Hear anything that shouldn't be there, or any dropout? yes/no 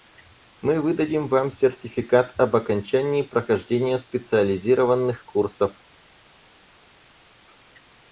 no